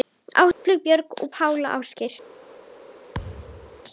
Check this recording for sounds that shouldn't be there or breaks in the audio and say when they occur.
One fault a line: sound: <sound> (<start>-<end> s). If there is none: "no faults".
sound: dropout (0.5-0.7 s)
sound: thud (3.1-3.8 s)